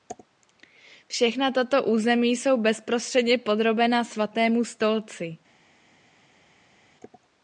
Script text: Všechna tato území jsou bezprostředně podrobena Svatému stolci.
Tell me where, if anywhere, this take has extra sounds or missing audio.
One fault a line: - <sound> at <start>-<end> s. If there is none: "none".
none